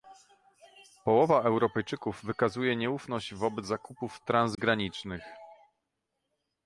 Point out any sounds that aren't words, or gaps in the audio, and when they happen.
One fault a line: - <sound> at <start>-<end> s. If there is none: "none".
- dropout at 4.5-4.6 s